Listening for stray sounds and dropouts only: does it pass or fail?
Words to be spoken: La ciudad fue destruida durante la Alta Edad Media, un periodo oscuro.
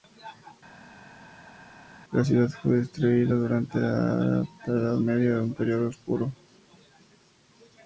pass